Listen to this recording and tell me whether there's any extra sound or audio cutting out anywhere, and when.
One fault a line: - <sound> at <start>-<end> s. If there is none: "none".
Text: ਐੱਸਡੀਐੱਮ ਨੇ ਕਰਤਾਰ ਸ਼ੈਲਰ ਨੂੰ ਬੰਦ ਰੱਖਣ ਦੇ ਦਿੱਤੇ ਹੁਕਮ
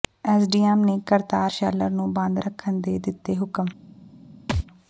- thud at 4.5-4.7 s